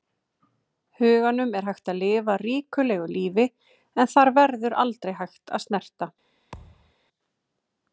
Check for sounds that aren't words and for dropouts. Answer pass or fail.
fail